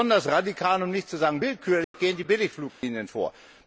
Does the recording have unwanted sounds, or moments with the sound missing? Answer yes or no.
yes